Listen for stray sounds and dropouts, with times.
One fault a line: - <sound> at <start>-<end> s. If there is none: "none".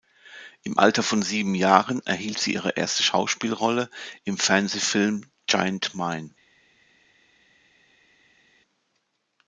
none